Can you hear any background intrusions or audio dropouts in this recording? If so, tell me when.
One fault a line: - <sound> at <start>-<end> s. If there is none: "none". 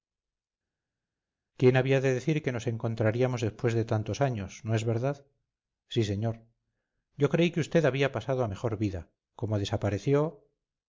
none